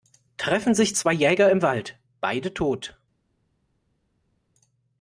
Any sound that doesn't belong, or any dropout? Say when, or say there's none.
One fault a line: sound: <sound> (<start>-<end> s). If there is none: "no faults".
no faults